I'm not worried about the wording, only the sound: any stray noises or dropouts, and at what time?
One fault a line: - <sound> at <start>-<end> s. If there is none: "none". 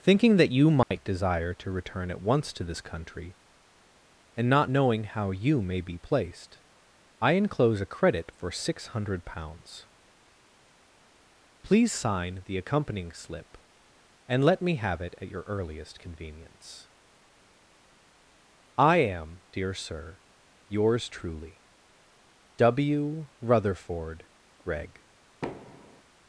- dropout at 0.8-0.9 s
- thud at 25.4-26.0 s